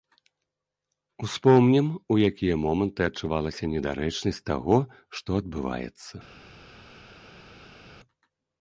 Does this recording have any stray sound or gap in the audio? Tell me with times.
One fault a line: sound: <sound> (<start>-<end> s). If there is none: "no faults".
no faults